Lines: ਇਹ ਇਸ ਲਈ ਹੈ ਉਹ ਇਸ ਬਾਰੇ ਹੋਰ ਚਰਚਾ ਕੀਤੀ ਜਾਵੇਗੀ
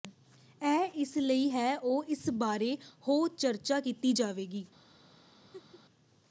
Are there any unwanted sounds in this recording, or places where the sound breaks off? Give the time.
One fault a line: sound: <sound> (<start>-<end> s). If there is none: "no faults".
sound: laugh (5.5-5.8 s)